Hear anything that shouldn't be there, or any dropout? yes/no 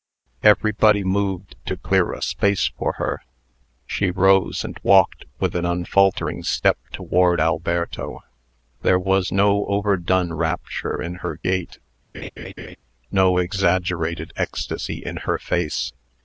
yes